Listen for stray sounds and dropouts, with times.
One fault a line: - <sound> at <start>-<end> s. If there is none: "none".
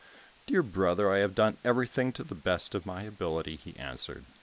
none